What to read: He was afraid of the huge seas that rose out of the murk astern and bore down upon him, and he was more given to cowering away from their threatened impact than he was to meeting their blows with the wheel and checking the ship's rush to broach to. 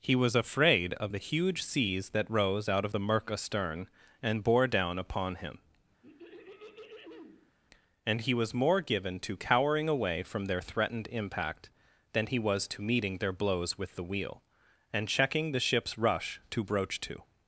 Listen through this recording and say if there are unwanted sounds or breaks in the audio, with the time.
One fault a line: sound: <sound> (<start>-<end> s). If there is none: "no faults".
sound: throat clearing (6.0-7.5 s)